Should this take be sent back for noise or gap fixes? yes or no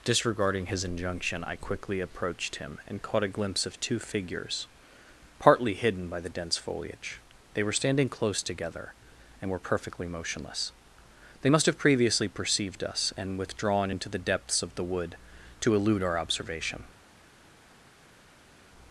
no